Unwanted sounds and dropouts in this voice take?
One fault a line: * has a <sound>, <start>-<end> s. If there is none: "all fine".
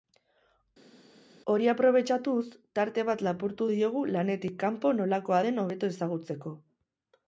all fine